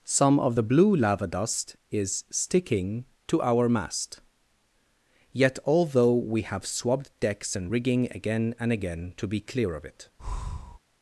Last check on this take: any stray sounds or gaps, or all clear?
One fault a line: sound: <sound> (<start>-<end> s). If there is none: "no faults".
sound: breath (10.2-10.8 s)